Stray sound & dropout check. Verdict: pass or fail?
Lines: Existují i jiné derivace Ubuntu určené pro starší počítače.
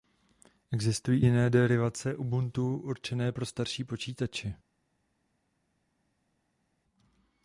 pass